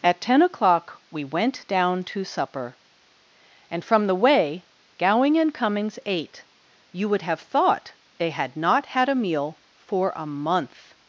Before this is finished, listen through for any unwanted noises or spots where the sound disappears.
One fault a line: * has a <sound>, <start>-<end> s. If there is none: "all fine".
all fine